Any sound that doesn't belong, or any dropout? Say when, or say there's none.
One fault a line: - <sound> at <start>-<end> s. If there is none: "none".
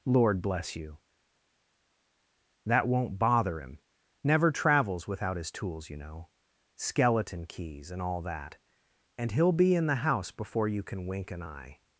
none